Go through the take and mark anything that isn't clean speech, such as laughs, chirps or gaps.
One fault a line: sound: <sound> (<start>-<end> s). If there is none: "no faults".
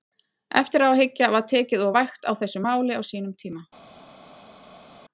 no faults